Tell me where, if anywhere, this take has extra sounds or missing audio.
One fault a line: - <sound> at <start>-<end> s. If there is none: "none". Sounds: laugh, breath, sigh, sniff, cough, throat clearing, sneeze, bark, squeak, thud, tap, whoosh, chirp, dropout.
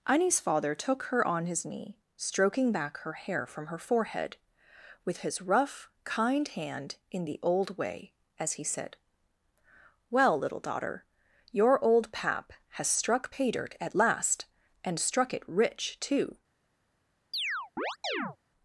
- chirp at 17.3-18.4 s